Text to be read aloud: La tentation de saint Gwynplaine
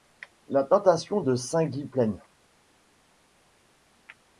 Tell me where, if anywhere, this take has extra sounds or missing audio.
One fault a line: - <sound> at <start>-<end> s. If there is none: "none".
none